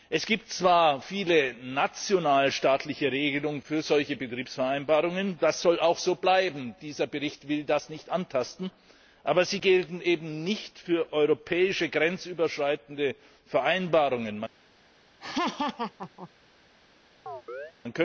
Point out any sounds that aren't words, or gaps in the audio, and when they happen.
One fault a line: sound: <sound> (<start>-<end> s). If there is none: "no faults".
sound: laugh (15.2-16.3 s)
sound: chirp (17.3-17.7 s)